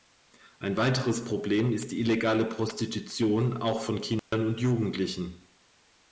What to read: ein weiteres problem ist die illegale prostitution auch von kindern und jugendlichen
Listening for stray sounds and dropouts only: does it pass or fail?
fail